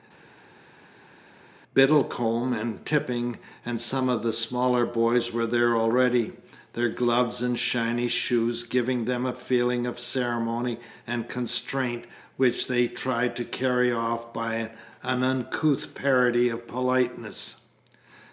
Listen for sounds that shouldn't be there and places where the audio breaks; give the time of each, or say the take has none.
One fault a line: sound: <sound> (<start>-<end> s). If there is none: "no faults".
no faults